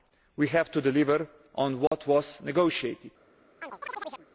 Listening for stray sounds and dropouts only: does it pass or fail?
fail